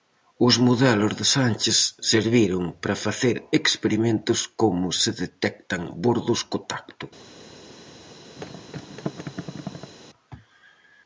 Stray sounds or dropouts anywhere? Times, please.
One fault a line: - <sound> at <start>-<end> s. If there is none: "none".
- thud at 8.4-9.9 s